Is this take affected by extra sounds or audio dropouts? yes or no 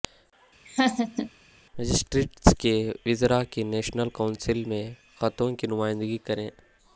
yes